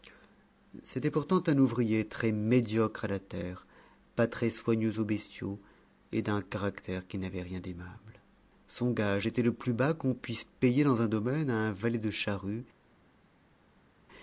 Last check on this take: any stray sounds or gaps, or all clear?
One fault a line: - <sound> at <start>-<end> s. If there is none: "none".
none